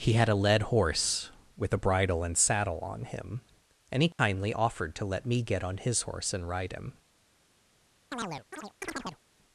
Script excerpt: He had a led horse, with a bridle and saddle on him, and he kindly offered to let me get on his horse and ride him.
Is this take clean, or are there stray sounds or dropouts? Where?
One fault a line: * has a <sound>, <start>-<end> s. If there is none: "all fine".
* has a dropout, 4.1-4.2 s
* has a chirp, 8.1-9.2 s